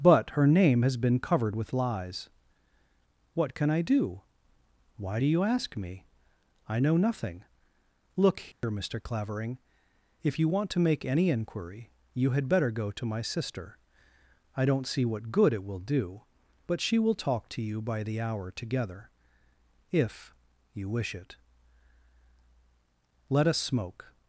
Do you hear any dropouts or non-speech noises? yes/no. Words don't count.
yes